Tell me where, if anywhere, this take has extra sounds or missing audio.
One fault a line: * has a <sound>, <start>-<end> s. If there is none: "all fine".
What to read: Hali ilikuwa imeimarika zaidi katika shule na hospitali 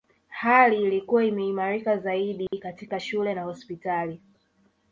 * has a dropout, 2.5-2.5 s